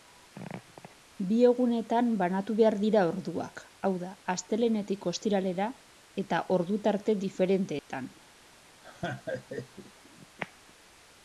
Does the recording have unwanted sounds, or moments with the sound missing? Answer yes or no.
yes